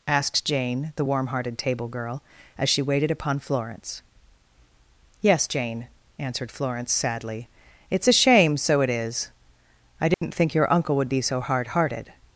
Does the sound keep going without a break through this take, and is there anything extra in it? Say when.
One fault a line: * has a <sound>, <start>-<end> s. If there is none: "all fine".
* has a dropout, 10.1-10.2 s